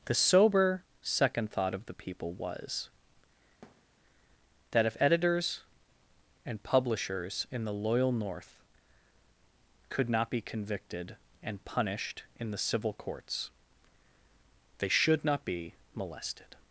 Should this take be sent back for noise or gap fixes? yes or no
yes